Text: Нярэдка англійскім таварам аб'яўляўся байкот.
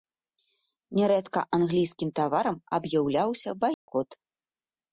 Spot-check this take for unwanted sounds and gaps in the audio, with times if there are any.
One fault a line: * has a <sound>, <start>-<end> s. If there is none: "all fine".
* has a dropout, 3.7-3.9 s